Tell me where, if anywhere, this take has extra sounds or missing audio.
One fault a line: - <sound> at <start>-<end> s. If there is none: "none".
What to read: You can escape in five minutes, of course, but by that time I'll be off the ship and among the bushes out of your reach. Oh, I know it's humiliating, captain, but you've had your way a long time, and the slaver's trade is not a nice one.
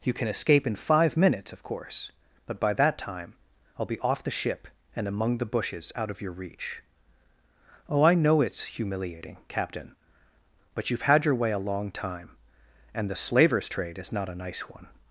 none